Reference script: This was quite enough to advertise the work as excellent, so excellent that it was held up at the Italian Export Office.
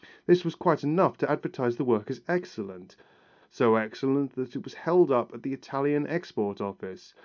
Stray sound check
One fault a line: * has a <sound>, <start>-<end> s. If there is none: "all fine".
all fine